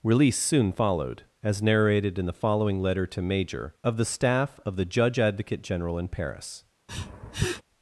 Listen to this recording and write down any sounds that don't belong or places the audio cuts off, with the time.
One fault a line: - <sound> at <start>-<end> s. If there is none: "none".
- sniff at 6.9-7.6 s